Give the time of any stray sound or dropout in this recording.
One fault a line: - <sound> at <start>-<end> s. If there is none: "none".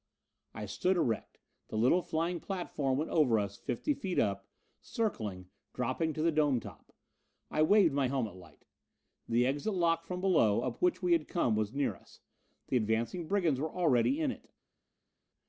none